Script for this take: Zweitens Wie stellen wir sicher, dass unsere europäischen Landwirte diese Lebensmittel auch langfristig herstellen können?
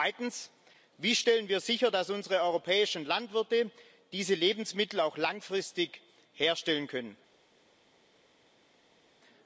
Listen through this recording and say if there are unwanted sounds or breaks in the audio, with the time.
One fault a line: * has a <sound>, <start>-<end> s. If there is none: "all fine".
all fine